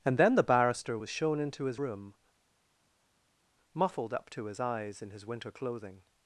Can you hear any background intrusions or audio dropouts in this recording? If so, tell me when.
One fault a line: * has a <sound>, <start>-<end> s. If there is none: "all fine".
all fine